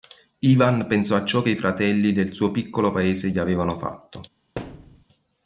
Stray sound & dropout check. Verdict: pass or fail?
fail